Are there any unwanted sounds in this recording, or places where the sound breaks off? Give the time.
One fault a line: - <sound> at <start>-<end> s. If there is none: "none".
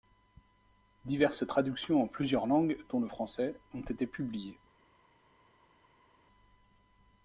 none